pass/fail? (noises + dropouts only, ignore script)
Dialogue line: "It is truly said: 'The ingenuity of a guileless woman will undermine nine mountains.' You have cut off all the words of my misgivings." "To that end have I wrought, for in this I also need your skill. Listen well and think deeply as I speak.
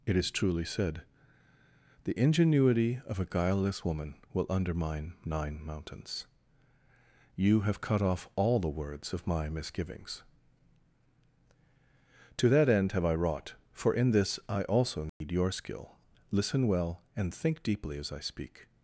fail